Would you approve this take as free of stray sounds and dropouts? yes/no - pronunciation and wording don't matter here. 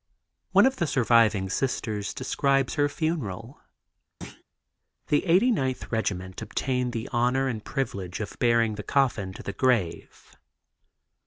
no